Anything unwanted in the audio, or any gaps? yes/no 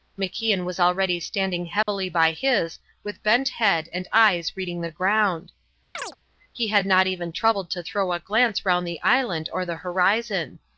yes